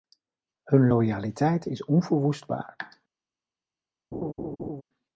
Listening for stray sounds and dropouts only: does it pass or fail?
fail